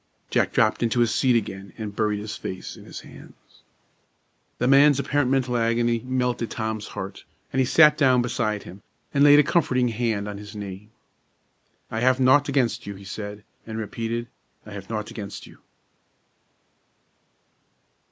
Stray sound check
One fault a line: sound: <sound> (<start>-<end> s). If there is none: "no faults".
no faults